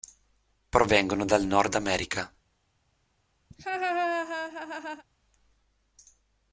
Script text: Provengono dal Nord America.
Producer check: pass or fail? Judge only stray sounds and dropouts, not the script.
fail